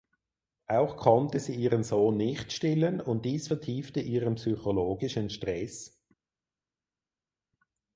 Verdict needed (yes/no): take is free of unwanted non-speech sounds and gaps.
yes